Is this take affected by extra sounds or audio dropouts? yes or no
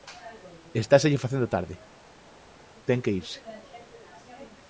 no